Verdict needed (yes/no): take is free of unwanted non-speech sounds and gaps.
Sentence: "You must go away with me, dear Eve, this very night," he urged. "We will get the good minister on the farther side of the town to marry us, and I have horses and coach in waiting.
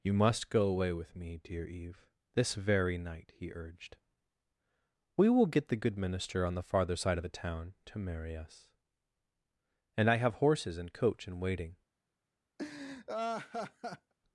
no